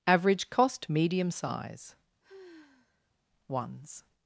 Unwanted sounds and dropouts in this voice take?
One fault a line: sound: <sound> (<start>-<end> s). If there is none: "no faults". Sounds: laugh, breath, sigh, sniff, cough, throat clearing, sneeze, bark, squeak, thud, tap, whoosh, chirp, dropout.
sound: sigh (2.2-3.1 s)